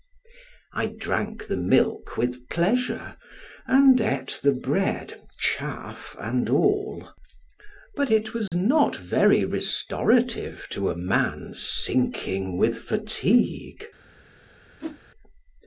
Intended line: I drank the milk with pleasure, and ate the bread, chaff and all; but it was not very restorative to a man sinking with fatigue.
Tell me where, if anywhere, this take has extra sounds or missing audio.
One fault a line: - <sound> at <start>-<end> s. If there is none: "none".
- dropout at 8.5-8.5 s
- whoosh at 14.8-15.0 s